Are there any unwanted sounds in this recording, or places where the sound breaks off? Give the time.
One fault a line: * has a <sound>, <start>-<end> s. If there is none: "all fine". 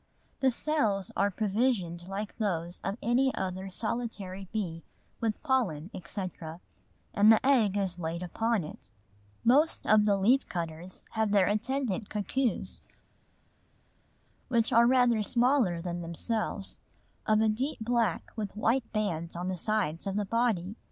all fine